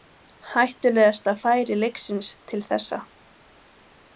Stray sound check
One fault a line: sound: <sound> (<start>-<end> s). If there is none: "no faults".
no faults